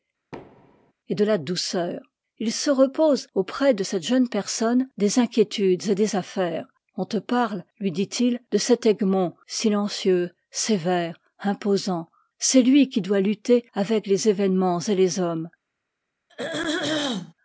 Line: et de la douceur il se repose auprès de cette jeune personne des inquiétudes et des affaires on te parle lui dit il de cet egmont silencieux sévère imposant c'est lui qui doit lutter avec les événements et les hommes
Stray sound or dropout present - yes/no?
yes